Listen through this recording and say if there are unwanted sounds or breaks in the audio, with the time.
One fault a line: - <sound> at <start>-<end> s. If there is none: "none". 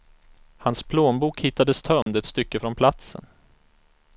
- dropout at 2.0-2.1 s